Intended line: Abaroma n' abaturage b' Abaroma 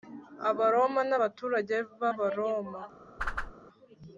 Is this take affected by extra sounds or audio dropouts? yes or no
yes